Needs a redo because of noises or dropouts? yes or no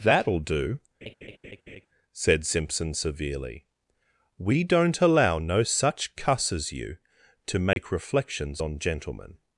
yes